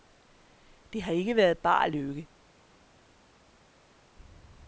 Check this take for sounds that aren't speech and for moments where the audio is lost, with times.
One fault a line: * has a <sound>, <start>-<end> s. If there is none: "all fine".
all fine